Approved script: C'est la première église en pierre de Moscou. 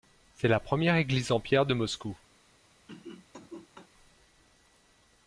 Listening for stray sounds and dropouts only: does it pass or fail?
fail